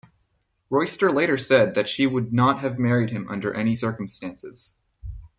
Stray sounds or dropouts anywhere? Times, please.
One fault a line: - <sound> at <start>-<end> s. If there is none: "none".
none